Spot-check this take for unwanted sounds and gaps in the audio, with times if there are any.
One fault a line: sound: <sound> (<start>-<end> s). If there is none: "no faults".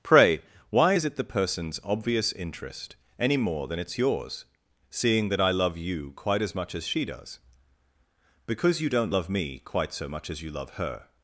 no faults